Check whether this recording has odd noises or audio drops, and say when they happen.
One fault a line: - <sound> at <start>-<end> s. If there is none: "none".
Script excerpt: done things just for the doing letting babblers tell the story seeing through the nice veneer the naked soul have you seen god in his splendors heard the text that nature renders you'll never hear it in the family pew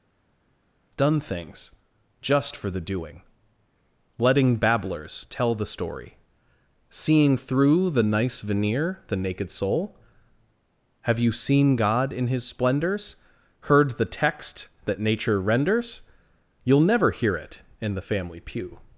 none